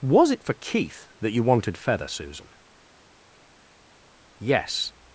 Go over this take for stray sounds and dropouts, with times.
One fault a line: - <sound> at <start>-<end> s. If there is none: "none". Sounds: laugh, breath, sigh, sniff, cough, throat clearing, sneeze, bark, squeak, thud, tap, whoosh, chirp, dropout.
none